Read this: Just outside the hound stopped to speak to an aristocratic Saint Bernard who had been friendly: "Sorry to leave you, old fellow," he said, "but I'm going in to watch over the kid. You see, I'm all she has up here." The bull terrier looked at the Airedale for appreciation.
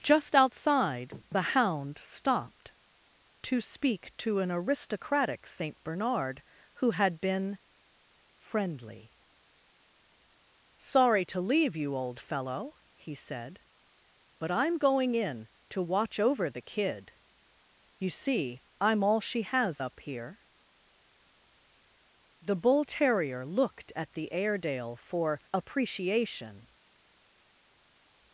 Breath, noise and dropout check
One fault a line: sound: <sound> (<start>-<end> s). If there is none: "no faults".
no faults